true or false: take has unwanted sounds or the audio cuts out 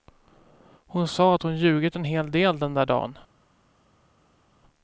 false